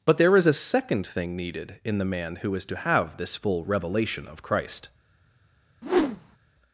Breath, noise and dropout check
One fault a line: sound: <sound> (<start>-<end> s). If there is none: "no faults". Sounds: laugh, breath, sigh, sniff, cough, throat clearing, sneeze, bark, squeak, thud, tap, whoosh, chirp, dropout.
sound: whoosh (5.8-6.4 s)